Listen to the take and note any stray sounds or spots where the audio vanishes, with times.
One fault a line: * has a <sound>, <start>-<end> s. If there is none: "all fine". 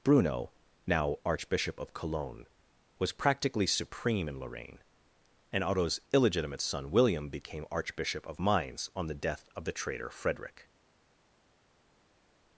all fine